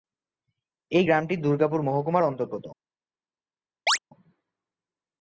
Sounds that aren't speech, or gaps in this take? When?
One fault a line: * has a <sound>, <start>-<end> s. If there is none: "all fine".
* has a chirp, 3.9-4.0 s